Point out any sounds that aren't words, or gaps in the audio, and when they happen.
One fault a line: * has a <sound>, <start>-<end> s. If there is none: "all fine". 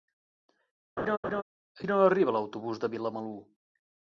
* has a laugh, 1.0-1.4 s